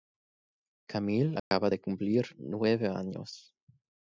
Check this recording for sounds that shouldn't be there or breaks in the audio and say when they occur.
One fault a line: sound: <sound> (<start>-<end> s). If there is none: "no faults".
sound: dropout (1.4-1.5 s)